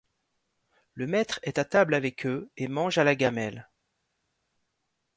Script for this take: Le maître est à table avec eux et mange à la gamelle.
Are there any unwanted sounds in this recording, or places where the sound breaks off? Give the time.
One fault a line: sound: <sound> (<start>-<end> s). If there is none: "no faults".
no faults